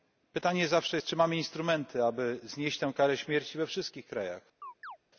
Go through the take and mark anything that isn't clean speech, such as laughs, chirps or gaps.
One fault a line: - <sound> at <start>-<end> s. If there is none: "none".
- chirp at 4.6-5.0 s